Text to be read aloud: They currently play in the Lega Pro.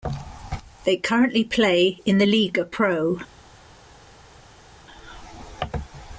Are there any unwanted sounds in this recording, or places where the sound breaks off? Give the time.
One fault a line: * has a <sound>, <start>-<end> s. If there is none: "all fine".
all fine